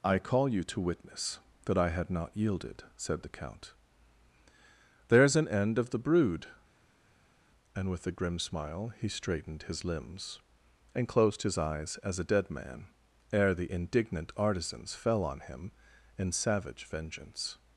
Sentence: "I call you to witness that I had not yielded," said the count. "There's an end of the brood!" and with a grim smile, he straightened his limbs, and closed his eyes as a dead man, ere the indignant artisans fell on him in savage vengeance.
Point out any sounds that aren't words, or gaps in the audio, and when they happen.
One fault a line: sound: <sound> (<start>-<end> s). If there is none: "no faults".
no faults